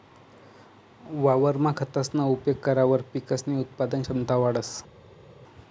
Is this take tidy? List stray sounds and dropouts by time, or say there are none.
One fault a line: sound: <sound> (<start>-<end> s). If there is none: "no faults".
no faults